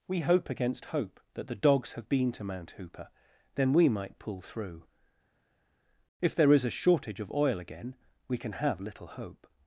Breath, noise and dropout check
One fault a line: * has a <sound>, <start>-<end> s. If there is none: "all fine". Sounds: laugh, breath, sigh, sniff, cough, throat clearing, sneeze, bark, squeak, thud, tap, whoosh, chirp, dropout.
all fine